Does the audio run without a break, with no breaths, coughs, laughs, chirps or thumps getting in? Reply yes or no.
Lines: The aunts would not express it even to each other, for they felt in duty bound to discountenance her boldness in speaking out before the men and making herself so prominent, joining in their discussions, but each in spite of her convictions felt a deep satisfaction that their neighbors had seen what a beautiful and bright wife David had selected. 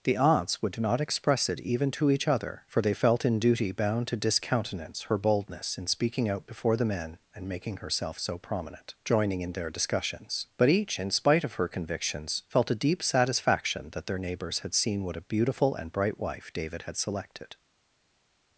yes